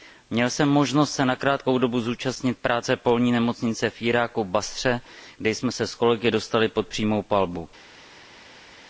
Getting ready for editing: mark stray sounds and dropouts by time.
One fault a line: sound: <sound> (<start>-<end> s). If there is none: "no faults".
no faults